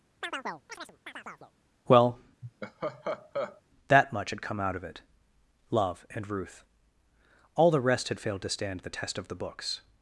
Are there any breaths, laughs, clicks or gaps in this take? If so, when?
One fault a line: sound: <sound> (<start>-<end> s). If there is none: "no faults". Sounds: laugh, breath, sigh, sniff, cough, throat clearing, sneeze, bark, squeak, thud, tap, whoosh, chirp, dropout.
sound: chirp (0.2-1.5 s)
sound: laugh (2.4-3.6 s)